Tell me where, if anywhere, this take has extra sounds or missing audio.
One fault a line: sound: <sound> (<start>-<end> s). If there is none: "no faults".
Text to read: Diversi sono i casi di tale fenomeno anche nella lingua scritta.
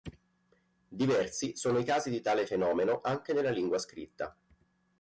no faults